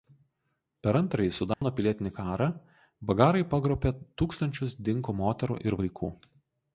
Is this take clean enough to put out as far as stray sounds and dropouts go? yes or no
no